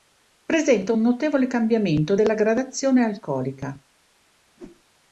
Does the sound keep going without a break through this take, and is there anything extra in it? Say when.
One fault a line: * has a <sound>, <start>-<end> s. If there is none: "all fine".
* has a whoosh, 4.6-4.8 s